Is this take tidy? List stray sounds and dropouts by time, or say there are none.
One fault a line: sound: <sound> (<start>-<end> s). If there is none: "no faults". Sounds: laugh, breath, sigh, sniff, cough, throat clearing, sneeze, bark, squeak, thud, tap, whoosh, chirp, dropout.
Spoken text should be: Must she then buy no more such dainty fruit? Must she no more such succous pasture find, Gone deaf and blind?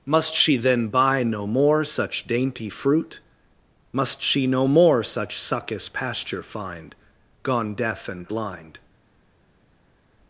no faults